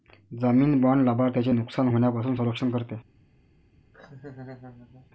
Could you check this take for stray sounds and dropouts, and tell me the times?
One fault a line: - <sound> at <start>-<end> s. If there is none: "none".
- laugh at 3.9-5.1 s